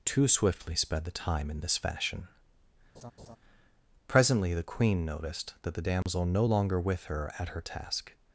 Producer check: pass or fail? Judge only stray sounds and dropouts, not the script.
fail